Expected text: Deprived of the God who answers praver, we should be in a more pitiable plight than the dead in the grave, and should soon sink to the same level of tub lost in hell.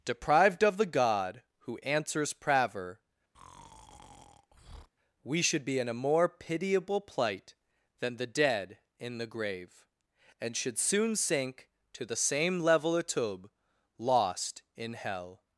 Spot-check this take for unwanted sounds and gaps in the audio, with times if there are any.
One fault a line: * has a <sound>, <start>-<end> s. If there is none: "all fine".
* has a breath, 3.3-4.9 s